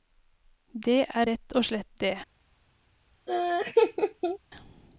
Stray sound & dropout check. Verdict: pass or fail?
fail